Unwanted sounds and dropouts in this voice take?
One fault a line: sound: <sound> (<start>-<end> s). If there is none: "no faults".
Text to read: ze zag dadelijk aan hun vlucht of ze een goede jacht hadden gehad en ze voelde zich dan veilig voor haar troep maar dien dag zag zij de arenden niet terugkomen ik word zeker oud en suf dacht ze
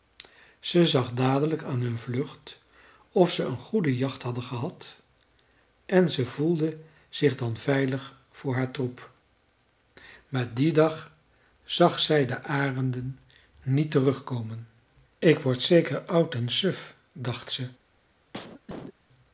sound: cough (18.3-18.9 s)